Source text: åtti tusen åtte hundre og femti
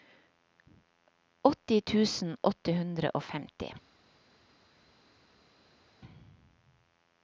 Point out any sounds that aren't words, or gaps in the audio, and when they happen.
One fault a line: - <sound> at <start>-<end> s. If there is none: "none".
none